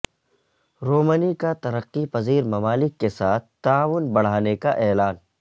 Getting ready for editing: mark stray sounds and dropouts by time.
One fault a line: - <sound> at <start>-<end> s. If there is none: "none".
none